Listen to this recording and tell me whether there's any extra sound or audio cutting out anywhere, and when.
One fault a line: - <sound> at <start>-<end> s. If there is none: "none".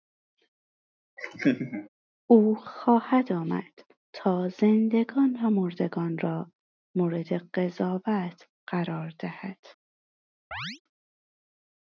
- laugh at 1.2-1.9 s
- chirp at 10.5-10.8 s